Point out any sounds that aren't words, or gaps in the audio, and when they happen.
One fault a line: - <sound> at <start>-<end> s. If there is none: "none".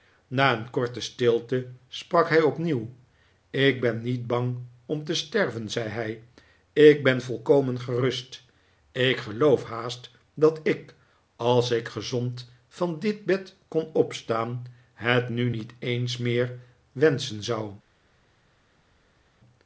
none